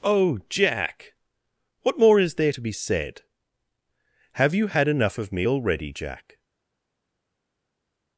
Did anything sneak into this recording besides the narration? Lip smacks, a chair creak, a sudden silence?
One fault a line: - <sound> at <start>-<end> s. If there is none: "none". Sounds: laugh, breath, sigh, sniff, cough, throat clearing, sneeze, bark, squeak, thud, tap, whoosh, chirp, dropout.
none